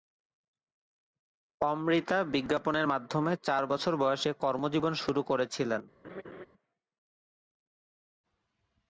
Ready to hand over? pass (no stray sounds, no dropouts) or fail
fail